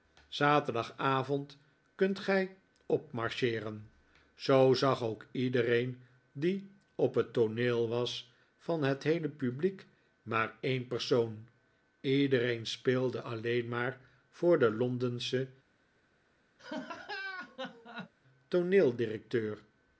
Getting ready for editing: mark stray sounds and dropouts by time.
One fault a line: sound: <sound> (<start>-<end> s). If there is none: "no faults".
sound: laugh (16.6-18.1 s)